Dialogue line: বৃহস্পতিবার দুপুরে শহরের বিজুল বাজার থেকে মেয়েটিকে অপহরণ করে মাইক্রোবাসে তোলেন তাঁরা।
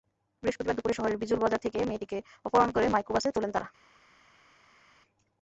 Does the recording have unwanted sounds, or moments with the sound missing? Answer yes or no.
no